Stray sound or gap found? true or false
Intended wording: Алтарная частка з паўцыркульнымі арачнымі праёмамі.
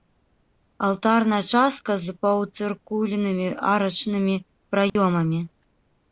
true